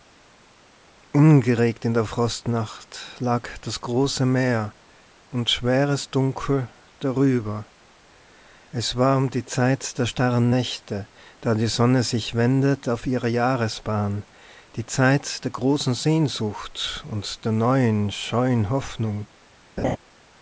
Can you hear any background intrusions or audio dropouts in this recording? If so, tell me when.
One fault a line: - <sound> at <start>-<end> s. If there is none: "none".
- laugh at 19.8-20.0 s